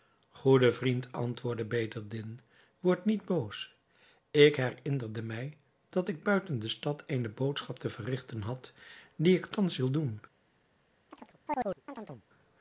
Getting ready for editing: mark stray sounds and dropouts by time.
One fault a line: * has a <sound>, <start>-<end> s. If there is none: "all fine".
* has a chirp, 11.1-12.2 s